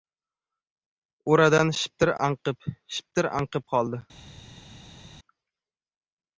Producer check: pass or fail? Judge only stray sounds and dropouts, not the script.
pass